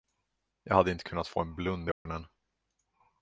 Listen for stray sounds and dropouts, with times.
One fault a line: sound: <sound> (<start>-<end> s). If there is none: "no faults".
sound: dropout (1.9-2.1 s)